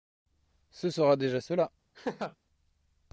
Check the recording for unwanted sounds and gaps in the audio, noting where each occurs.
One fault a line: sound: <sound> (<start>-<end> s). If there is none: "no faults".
sound: laugh (1.9-2.4 s)